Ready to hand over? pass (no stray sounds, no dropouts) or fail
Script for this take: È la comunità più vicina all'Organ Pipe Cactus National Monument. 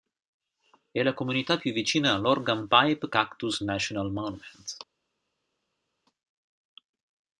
pass